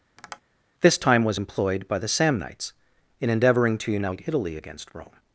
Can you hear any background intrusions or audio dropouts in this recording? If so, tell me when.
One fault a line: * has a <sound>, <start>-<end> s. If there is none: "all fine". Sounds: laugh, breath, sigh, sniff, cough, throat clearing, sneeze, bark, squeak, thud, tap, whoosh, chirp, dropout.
* has a tap, 0.2-0.4 s